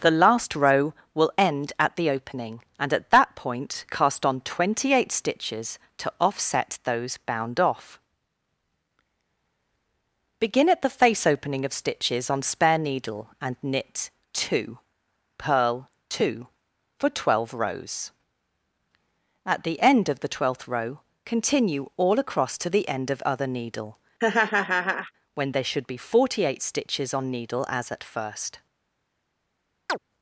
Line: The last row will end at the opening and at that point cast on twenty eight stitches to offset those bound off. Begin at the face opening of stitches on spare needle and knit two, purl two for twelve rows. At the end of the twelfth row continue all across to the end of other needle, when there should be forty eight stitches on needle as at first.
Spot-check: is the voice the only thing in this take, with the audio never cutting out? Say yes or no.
no